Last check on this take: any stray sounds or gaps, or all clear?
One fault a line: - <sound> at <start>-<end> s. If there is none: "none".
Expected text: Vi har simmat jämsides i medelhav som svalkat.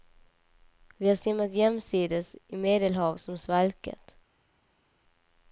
none